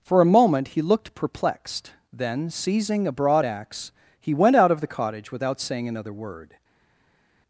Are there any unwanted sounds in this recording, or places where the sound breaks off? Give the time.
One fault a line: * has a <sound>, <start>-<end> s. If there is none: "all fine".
all fine